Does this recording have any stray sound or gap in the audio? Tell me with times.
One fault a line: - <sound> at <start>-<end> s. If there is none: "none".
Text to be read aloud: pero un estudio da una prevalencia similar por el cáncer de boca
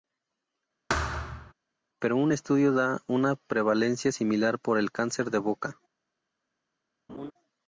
- thud at 0.9-1.5 s
- laugh at 7.1-7.3 s